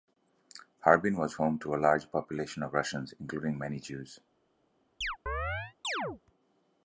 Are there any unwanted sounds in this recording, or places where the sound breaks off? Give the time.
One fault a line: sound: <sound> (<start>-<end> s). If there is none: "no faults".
sound: chirp (5.0-6.2 s)